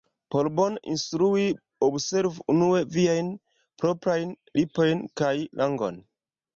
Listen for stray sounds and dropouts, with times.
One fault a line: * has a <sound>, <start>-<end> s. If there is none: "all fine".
all fine